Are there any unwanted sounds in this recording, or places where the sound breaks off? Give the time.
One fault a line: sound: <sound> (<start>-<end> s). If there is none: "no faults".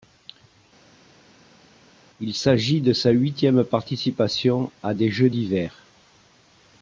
no faults